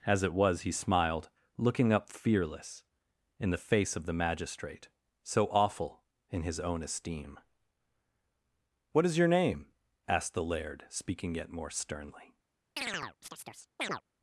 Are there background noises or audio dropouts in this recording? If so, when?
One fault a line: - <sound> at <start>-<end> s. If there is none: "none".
- chirp at 12.8-14.0 s